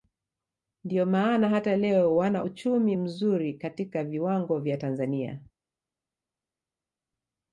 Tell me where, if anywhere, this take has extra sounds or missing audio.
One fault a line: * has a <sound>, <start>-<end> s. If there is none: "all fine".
all fine